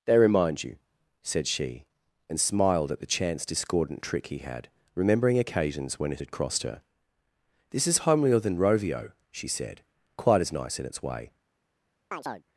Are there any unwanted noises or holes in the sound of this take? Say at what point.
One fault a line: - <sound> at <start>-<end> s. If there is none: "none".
- chirp at 12.1-12.4 s